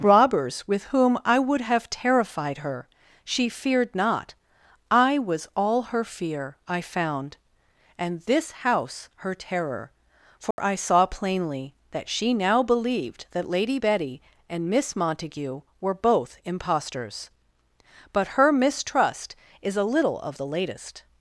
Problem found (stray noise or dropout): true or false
true